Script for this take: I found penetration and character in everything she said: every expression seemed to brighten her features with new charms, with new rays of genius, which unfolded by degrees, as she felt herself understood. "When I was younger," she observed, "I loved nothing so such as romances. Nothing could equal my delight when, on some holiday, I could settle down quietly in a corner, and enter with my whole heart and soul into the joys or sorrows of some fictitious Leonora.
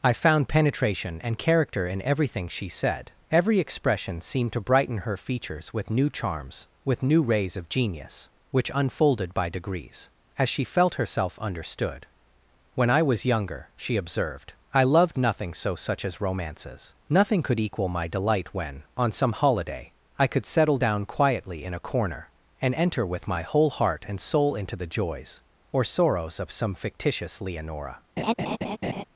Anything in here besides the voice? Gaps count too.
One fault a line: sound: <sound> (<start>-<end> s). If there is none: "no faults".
sound: laugh (28.2-29.0 s)